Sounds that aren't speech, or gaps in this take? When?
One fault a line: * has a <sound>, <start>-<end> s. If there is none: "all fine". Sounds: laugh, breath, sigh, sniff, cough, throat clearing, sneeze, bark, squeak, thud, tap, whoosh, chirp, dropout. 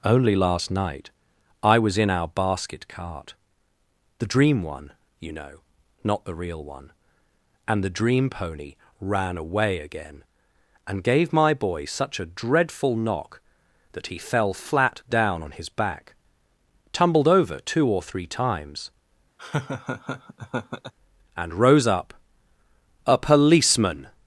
* has a laugh, 19.4-20.9 s